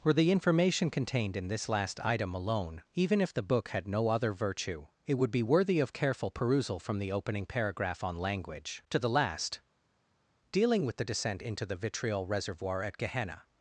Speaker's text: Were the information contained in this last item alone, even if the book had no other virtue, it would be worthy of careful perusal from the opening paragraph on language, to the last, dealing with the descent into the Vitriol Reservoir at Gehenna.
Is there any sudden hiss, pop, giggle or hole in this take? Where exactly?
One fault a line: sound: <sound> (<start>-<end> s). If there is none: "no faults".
no faults